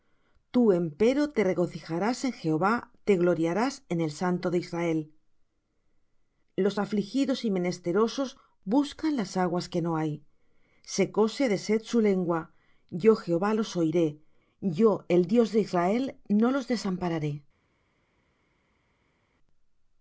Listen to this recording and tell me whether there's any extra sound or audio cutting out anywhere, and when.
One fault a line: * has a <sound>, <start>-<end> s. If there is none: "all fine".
all fine